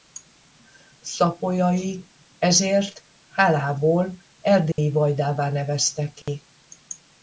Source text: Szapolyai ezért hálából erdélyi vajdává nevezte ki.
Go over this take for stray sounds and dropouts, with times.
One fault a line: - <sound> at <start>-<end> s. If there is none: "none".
- dropout at 4.7-4.8 s
- dropout at 6.2-6.3 s